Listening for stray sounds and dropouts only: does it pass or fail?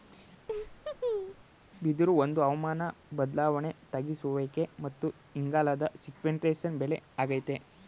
fail